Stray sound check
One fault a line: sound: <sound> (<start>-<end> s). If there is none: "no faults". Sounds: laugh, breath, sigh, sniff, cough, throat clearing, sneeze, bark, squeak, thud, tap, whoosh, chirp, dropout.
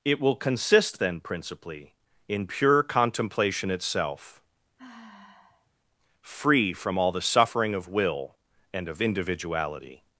sound: sigh (4.8-5.7 s)